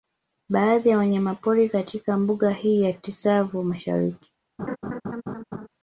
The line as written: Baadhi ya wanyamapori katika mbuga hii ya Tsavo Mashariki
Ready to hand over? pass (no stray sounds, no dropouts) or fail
fail